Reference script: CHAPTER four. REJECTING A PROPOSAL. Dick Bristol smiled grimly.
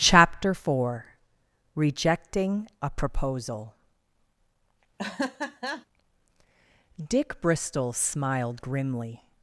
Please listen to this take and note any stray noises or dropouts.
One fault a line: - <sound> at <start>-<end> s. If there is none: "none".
- laugh at 5.0-5.9 s